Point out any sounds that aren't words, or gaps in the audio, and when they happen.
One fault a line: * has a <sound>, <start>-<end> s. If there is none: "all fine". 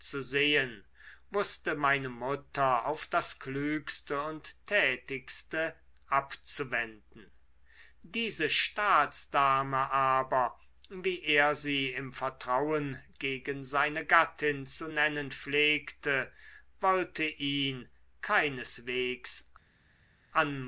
all fine